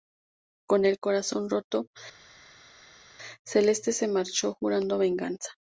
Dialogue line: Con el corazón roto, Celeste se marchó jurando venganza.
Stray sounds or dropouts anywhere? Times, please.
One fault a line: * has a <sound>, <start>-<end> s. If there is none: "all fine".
all fine